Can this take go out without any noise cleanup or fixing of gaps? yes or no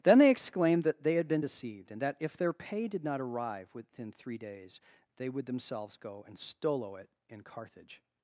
yes